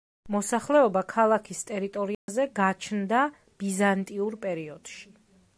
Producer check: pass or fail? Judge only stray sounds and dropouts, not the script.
fail